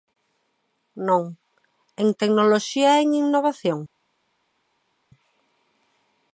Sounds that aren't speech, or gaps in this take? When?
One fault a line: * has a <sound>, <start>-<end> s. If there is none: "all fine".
all fine